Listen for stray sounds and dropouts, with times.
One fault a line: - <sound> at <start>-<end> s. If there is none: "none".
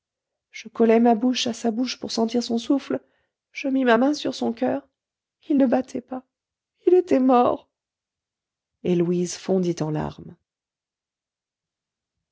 none